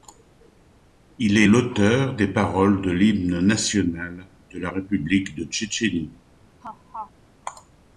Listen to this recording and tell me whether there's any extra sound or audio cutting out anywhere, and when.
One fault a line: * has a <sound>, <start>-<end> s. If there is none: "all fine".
* has a laugh, 6.6-7.1 s